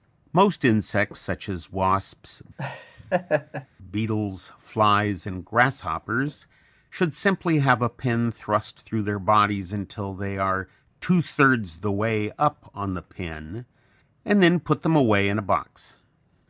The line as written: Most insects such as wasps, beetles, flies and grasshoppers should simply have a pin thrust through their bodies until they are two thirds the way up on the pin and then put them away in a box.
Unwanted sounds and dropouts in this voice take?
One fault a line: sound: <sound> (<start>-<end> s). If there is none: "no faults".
sound: laugh (2.6-3.7 s)